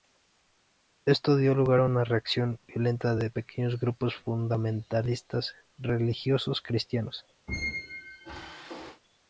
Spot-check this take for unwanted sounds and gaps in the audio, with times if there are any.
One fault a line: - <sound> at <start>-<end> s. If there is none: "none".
- squeak at 7.5-9.0 s